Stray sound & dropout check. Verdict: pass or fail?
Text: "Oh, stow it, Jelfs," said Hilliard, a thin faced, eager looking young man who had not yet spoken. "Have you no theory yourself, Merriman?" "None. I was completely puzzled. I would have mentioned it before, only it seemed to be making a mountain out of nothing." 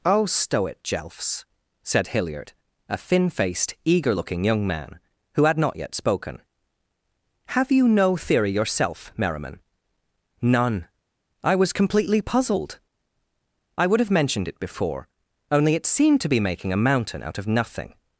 pass